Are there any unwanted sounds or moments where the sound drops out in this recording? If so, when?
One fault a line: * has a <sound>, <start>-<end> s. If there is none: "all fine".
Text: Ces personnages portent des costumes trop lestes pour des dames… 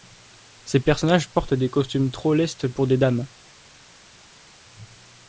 all fine